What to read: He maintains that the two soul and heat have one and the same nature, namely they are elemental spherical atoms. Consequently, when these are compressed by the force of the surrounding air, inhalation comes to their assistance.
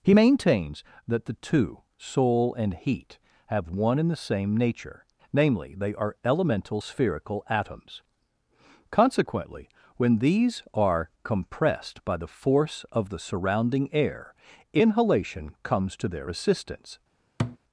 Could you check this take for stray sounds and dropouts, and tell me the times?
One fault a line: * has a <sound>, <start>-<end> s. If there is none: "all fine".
* has a thud, 17.4-17.6 s